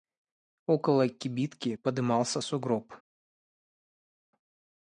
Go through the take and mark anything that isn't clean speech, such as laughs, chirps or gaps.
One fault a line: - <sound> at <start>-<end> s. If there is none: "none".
none